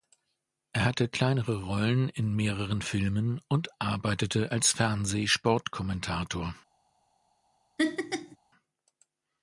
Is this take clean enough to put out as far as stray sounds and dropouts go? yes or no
no